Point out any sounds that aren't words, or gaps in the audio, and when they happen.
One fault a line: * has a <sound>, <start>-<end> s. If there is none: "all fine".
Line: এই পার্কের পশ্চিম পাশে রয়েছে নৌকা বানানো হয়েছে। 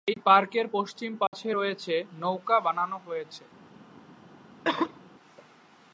* has a dropout, 1.3-1.3 s
* has a cough, 4.6-5.0 s